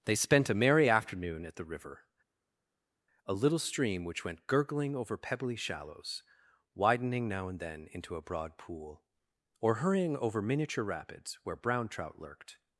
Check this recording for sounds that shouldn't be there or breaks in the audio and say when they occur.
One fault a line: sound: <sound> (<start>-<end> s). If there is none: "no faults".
no faults